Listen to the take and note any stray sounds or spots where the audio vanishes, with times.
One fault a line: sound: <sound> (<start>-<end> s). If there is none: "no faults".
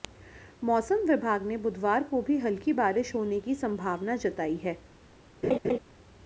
sound: laugh (5.4-5.8 s)